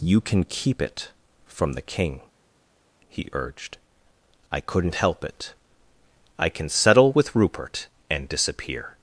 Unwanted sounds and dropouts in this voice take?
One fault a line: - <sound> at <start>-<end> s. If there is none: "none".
none